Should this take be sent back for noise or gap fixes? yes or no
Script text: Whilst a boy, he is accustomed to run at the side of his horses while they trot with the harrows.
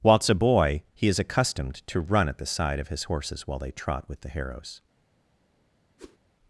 yes